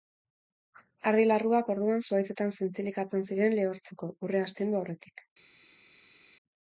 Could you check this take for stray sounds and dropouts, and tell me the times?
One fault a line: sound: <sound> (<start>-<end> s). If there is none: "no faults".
no faults